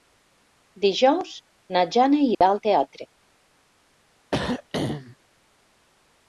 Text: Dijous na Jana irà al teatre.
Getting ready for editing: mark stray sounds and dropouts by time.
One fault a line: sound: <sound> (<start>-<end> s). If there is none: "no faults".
sound: dropout (2.3-2.4 s)
sound: throat clearing (4.3-5.2 s)